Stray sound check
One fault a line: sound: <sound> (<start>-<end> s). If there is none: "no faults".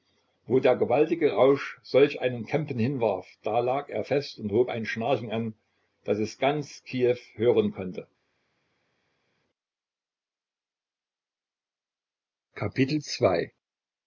no faults